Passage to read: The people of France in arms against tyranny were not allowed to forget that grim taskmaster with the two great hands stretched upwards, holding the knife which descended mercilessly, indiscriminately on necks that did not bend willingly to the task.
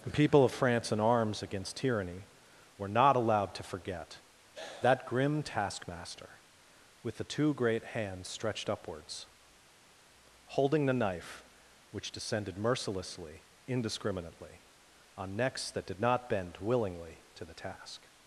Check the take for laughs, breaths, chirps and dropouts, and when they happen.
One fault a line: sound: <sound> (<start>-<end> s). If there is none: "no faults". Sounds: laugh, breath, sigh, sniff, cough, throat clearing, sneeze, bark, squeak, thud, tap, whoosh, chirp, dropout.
no faults